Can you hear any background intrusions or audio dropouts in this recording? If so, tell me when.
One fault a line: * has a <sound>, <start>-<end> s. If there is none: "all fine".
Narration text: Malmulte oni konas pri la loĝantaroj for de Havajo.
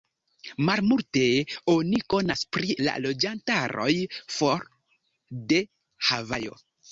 all fine